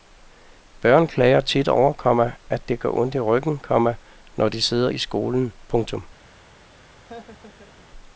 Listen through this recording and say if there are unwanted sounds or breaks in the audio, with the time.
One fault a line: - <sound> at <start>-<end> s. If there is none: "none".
- laugh at 7.1-7.9 s